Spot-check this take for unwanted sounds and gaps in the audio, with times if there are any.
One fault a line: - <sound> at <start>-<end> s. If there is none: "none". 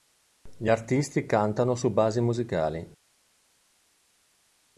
none